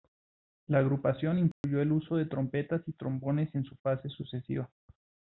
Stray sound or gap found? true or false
true